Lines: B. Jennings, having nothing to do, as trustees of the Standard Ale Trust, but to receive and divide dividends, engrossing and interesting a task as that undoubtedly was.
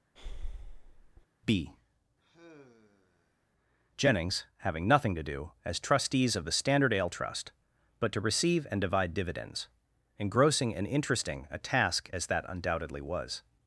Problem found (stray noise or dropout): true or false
true